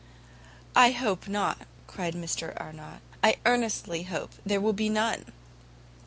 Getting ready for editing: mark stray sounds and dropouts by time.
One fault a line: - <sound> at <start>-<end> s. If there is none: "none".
none